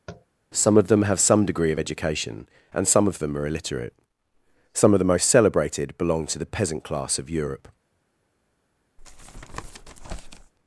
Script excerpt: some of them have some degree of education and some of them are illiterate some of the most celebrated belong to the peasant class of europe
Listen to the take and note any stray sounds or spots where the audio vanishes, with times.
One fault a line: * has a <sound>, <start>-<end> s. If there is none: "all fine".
* has a tap, 0.1-0.3 s
* has a tap, 9.0-10.5 s